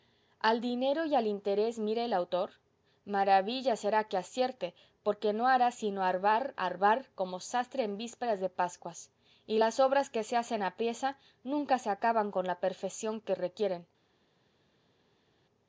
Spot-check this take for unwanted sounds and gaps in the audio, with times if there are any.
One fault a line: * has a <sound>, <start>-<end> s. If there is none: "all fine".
all fine